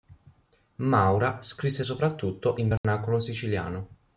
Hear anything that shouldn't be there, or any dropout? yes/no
yes